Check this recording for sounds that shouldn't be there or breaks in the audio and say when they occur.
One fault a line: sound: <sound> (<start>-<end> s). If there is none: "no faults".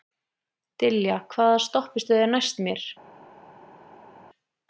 no faults